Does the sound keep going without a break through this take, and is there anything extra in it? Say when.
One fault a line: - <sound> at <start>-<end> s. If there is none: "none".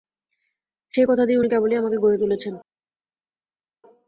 none